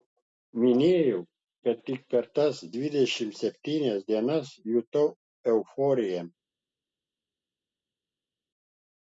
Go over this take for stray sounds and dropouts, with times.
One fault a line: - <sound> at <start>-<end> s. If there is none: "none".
none